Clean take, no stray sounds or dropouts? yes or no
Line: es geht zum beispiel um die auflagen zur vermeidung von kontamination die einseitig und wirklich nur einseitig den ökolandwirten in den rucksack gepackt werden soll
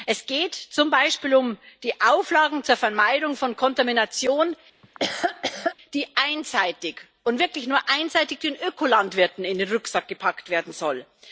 no